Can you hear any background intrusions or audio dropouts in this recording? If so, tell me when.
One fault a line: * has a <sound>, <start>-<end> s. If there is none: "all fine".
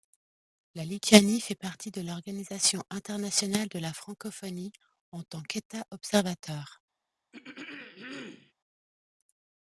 * has a throat clearing, 7.3-8.5 s